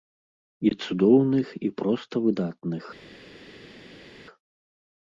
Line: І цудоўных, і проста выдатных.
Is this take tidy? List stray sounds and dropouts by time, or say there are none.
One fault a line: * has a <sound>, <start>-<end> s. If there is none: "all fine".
all fine